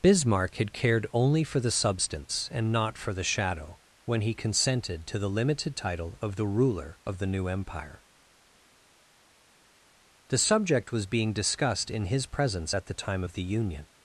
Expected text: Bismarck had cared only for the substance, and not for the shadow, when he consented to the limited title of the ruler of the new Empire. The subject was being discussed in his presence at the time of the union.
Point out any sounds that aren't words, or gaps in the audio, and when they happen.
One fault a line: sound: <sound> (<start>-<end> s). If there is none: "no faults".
no faults